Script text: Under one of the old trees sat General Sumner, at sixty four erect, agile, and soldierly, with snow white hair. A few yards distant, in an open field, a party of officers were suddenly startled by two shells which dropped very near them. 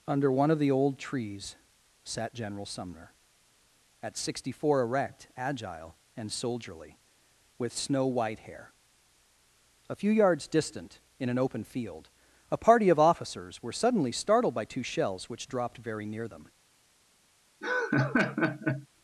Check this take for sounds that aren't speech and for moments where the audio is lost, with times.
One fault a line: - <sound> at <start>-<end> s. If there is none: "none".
- laugh at 17.6-18.9 s